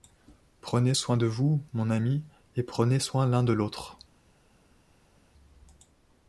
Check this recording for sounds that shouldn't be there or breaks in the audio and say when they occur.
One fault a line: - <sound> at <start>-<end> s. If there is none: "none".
none